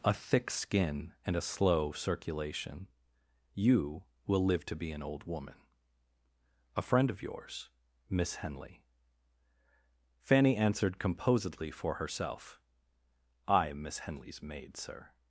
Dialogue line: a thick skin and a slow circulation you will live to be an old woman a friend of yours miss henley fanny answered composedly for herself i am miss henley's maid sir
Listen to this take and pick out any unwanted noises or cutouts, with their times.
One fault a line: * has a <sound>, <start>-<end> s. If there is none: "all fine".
all fine